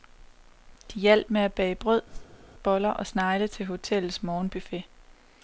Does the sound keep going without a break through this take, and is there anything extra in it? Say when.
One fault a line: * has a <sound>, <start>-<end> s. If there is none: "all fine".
* has a whoosh, 2.1-2.5 s